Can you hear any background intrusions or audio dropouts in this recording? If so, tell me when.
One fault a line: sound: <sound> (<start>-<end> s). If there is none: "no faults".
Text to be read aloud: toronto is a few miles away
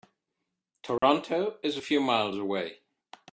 sound: dropout (1.0-1.0 s)